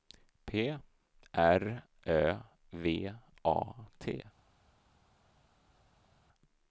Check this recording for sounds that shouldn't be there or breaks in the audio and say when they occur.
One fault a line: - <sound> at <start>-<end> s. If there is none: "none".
none